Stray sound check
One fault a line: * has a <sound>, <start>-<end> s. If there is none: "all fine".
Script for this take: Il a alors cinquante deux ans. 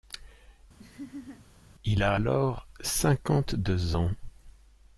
* has a laugh, 0.8-1.5 s